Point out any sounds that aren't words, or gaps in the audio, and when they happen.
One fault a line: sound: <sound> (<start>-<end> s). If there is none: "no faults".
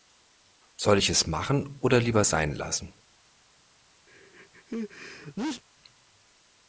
sound: sneeze (4.1-5.6 s)